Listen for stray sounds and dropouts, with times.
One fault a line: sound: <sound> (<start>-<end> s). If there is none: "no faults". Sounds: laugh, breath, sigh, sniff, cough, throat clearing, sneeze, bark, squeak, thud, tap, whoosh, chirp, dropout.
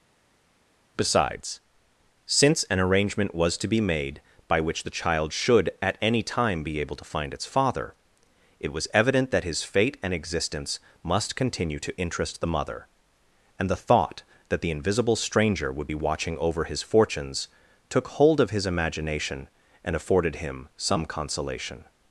no faults